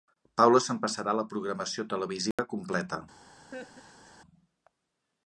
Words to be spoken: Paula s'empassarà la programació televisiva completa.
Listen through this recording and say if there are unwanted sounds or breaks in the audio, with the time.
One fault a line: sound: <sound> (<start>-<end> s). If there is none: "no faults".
sound: dropout (2.3-2.4 s)
sound: laugh (3.5-4.2 s)